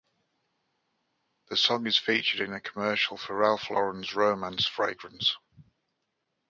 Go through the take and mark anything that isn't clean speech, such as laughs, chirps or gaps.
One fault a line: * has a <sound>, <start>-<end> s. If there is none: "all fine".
all fine